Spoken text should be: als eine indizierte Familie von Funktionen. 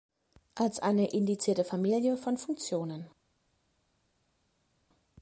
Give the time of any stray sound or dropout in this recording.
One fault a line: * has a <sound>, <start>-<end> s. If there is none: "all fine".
all fine